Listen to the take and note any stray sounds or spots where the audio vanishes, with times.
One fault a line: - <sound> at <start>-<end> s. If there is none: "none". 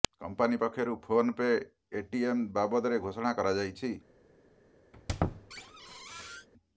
- squeak at 4.9-6.5 s